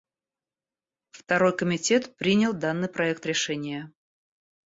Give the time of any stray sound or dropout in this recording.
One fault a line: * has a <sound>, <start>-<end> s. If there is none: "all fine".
all fine